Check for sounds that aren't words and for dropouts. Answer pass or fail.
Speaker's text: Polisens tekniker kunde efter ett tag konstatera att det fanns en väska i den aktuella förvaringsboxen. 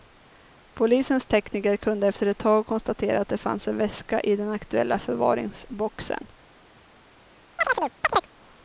fail